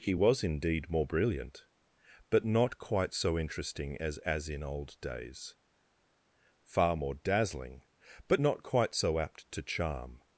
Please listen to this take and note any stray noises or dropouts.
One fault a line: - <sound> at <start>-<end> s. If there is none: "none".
none